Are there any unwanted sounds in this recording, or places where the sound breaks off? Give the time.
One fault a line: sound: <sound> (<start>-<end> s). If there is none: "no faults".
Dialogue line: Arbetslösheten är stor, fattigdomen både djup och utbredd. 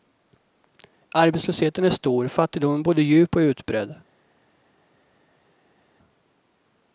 no faults